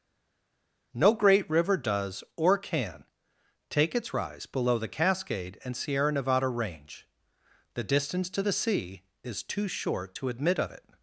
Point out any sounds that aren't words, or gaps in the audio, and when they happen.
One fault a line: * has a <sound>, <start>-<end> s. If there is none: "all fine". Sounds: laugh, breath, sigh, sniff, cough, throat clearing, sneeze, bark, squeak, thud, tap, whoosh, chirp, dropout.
all fine